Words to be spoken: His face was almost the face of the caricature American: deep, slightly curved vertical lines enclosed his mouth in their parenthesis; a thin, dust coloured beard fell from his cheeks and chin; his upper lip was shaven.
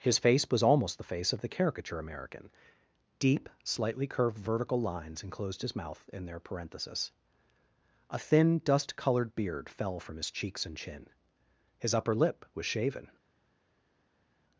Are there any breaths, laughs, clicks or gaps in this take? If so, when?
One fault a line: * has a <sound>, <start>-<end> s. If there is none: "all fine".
all fine